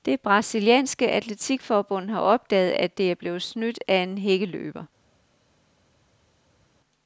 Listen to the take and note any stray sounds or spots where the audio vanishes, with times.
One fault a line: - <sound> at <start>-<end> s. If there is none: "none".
none